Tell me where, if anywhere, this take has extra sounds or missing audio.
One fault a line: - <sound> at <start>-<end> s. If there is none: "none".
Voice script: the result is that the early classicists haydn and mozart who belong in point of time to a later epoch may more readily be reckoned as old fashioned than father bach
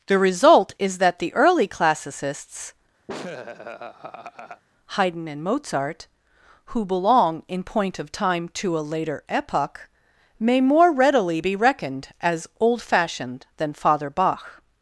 - laugh at 3.1-4.6 s